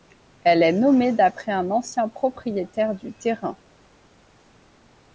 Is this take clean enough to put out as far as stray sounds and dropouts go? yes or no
yes